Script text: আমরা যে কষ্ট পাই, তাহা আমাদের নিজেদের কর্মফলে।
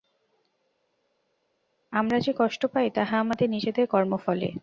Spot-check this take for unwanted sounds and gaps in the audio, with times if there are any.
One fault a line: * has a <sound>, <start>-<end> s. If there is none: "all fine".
all fine